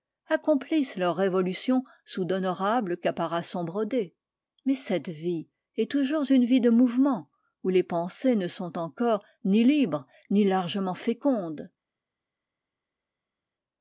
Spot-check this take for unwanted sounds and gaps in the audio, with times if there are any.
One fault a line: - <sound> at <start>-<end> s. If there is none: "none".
none